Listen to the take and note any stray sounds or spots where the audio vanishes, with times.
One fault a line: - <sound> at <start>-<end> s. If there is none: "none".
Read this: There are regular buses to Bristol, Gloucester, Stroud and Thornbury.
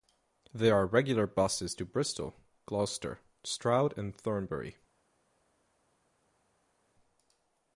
none